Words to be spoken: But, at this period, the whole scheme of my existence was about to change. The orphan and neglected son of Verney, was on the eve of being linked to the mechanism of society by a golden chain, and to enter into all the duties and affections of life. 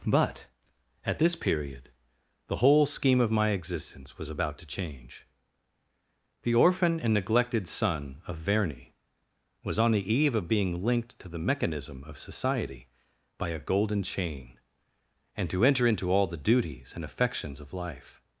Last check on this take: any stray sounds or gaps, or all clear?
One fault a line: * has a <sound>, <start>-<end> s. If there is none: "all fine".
all fine